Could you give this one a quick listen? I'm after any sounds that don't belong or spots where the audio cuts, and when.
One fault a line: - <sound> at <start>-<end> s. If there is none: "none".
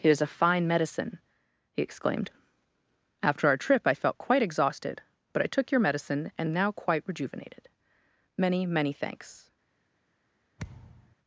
- thud at 10.6-11.2 s